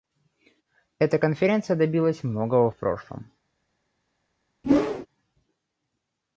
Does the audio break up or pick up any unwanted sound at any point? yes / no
yes